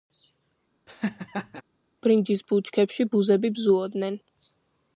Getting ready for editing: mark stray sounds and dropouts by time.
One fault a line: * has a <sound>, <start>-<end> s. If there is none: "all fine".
* has a laugh, 0.9-1.6 s